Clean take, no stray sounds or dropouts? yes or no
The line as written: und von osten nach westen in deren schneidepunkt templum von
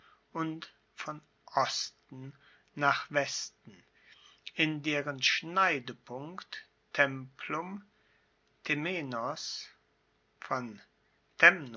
yes